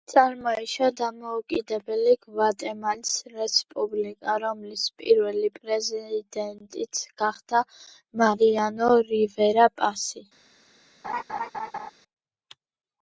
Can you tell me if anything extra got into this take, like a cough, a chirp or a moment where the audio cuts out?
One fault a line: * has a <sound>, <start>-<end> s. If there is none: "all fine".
* has a laugh, 11.0-11.9 s